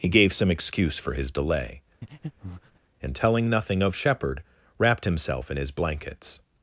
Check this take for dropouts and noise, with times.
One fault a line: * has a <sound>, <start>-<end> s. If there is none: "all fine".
* has a breath, 2.0-2.8 s